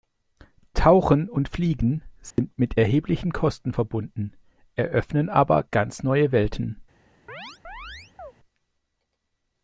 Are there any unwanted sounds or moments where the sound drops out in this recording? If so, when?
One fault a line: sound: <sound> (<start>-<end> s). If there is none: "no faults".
sound: dropout (2.3-2.4 s)
sound: chirp (7.3-8.3 s)